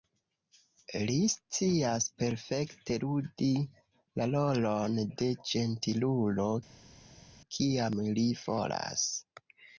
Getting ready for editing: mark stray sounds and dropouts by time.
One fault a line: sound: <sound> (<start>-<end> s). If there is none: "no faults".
no faults